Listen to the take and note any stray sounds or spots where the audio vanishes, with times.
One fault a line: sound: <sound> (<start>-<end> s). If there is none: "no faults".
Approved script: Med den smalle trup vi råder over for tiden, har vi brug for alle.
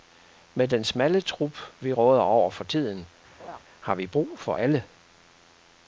sound: laugh (3.4-3.6 s)